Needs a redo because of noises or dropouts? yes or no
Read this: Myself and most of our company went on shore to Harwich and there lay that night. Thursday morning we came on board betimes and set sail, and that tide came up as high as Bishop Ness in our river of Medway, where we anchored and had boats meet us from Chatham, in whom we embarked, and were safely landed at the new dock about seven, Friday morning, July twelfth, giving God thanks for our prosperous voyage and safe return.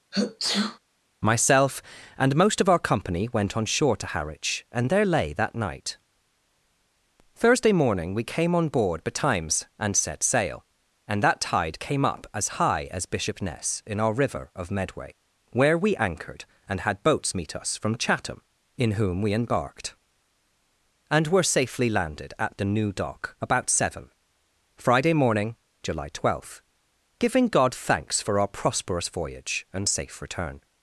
yes